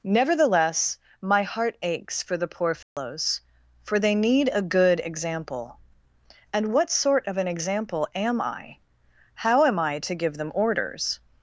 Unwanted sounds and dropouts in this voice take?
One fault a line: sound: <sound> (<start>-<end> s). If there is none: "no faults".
sound: dropout (2.8-3.0 s)